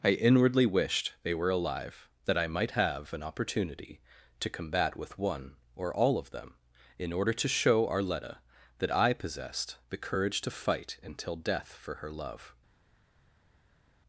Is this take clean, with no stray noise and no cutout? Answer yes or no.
yes